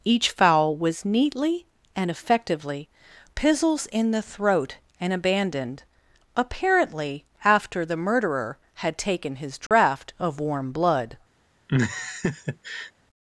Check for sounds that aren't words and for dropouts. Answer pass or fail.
fail